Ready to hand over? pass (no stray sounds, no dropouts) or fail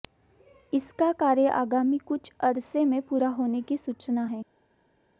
pass